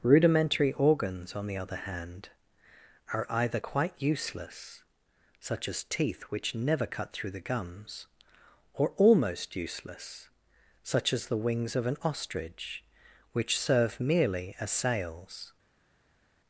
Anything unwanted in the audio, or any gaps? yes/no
no